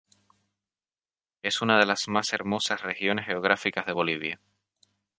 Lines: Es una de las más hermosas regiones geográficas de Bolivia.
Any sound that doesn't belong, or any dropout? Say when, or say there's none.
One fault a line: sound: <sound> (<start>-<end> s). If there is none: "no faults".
no faults